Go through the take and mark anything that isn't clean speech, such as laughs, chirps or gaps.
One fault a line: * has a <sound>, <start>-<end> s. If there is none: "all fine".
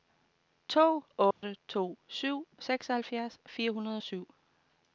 * has a dropout, 1.3-1.4 s